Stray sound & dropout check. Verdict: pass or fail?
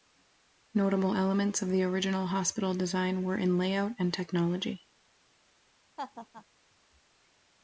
fail